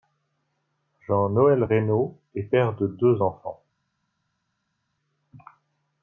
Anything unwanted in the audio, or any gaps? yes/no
no